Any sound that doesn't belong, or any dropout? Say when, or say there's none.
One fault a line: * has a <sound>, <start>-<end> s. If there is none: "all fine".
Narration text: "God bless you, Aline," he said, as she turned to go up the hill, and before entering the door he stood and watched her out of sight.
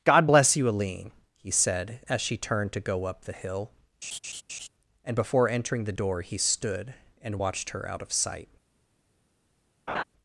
* has a laugh, 4.0-4.7 s
* has a laugh, 9.9-10.0 s